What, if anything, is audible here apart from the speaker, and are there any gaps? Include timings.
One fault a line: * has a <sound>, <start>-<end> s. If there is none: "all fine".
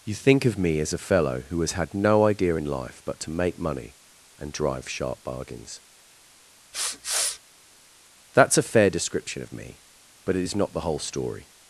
* has a sniff, 6.7-7.4 s